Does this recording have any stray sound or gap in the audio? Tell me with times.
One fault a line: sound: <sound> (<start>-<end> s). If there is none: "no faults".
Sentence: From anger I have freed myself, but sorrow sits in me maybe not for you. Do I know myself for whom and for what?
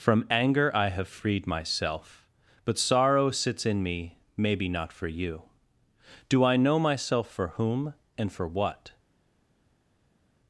no faults